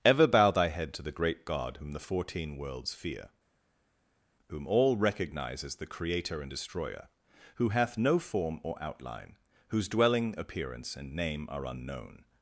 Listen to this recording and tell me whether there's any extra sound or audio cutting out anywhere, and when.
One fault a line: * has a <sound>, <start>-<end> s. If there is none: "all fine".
all fine